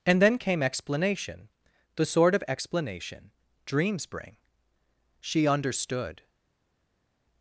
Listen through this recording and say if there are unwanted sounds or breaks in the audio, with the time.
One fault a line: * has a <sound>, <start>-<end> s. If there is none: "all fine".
all fine